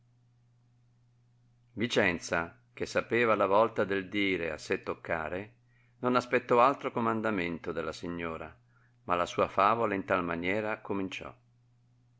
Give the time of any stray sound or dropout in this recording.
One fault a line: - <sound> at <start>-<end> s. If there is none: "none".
none